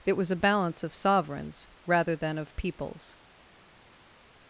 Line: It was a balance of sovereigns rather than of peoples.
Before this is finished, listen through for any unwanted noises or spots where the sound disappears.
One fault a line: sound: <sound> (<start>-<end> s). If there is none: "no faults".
no faults